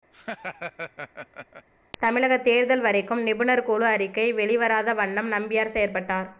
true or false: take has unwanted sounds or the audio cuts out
true